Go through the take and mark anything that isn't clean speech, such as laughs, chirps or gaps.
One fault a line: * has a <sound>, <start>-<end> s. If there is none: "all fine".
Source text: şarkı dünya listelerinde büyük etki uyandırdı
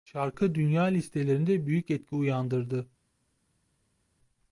all fine